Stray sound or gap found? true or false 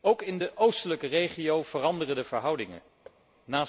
true